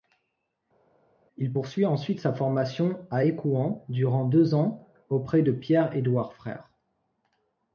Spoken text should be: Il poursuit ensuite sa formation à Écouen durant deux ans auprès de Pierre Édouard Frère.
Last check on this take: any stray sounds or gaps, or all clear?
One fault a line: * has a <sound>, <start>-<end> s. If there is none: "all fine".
all fine